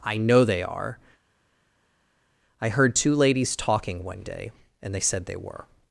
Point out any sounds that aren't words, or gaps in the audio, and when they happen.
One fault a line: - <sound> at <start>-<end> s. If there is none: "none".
none